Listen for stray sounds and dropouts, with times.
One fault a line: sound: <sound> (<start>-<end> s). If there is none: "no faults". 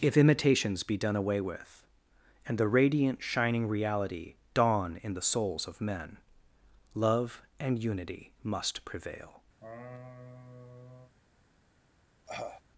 sound: laugh (9.6-11.1 s)
sound: cough (12.3-12.6 s)